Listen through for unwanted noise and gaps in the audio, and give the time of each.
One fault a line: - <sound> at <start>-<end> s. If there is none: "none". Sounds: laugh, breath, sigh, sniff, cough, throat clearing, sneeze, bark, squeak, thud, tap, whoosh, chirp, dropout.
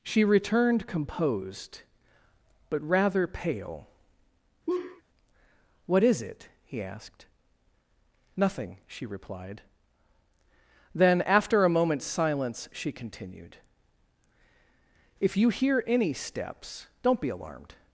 - laugh at 4.7-5.0 s